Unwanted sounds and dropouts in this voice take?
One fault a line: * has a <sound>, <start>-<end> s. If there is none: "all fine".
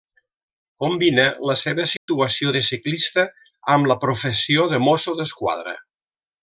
* has a dropout, 2.0-2.1 s